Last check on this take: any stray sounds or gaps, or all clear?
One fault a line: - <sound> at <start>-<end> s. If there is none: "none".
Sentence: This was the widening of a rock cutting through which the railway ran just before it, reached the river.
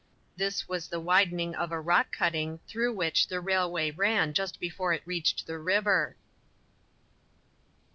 none